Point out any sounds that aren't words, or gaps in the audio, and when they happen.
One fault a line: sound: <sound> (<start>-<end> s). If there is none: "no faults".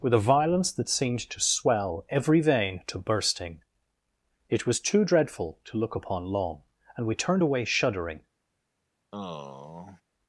sound: sigh (9.1-10.0 s)